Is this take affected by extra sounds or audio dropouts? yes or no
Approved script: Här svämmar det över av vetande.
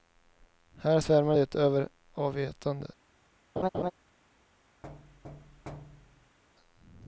yes